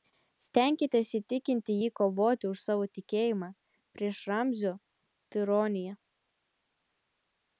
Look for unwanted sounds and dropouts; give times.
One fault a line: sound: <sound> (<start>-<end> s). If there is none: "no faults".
no faults